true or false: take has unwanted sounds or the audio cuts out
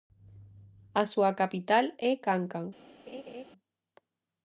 true